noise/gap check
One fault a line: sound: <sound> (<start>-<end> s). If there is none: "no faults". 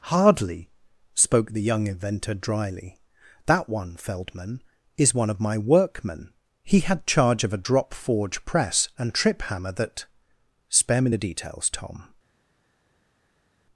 no faults